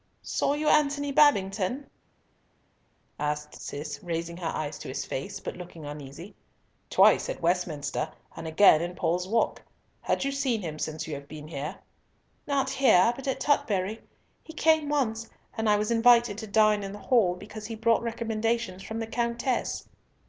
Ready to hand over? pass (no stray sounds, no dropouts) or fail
pass